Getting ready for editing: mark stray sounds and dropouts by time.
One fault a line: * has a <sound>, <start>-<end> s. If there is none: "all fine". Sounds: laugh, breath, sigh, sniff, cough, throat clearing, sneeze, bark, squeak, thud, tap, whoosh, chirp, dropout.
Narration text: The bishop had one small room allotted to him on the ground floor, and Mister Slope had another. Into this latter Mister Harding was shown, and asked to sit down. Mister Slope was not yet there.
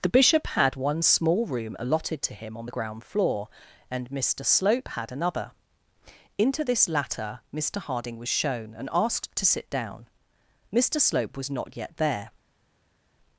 all fine